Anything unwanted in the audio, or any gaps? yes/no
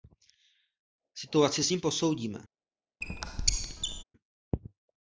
yes